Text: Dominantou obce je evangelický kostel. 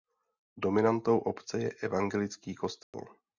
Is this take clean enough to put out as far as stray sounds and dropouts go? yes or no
no